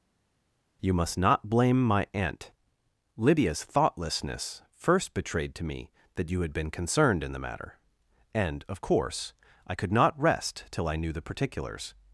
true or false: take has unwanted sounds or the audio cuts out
false